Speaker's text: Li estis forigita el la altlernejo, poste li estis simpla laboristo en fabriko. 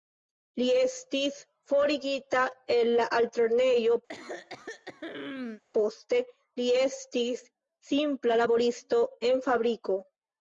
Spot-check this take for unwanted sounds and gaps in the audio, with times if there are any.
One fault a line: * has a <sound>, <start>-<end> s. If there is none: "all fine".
* has a throat clearing, 4.1-5.6 s